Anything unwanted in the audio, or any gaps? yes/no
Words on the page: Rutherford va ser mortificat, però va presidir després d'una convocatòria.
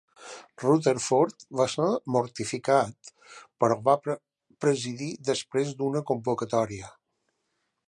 no